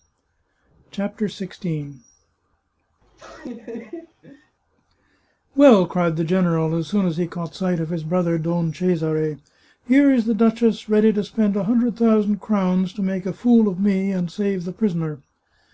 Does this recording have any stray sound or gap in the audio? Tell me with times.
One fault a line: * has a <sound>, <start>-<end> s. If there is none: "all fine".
* has a laugh, 3.0-4.6 s